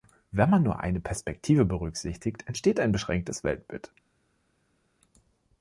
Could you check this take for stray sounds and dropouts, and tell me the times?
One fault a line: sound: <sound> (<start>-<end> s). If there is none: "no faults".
no faults